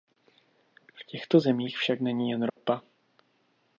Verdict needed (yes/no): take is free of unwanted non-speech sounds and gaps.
no